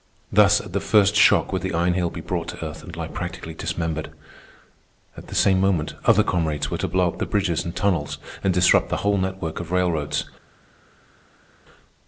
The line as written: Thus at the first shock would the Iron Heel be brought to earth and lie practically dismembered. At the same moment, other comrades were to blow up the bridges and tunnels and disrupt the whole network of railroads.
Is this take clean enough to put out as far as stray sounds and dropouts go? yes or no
yes